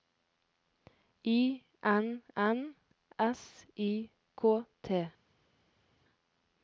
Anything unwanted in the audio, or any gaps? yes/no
no